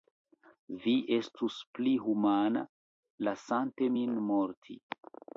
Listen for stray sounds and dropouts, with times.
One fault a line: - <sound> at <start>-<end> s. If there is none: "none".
none